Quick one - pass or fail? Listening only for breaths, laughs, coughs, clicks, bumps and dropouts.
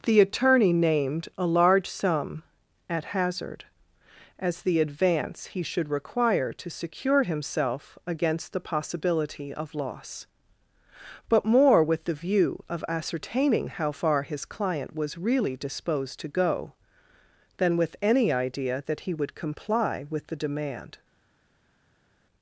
pass